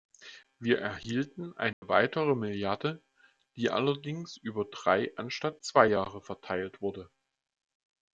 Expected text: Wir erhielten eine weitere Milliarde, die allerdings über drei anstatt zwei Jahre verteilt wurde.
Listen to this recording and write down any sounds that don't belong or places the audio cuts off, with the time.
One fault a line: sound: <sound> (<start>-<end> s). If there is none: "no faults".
sound: dropout (1.7-1.8 s)